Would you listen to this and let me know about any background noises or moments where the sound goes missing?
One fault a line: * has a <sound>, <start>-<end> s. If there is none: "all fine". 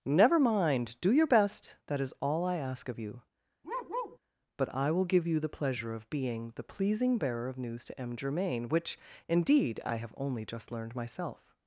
* has a bark, 3.6-4.2 s